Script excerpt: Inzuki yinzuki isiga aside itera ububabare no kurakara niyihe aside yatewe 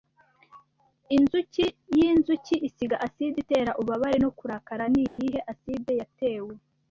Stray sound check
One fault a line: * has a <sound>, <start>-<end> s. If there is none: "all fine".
* has a dropout, 5.1-5.2 s